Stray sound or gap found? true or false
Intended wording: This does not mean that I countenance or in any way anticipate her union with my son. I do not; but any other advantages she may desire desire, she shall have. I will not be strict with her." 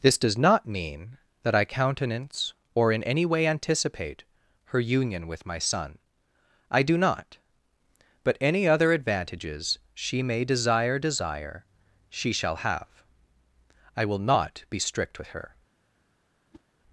true